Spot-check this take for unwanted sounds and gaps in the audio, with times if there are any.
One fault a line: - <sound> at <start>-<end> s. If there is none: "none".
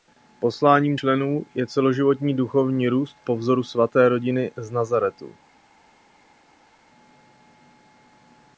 none